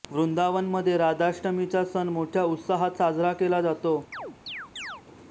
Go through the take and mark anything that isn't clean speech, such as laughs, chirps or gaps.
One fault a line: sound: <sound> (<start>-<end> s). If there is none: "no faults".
sound: chirp (4.1-5.0 s)